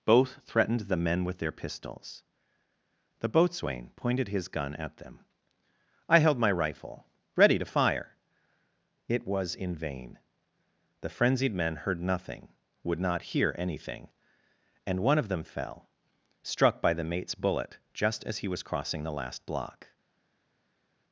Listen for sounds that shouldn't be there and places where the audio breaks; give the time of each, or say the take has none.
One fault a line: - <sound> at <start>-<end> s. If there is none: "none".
none